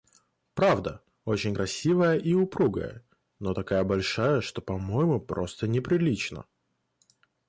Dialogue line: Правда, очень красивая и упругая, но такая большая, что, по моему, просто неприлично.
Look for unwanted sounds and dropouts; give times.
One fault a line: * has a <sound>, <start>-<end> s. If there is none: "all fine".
all fine